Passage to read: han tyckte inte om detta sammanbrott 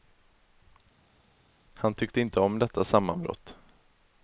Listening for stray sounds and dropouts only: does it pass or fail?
pass